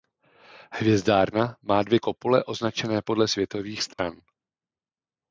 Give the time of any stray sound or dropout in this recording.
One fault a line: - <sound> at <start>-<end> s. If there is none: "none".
- dropout at 3.9-4.0 s